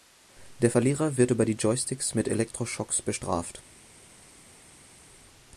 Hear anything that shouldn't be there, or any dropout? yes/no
no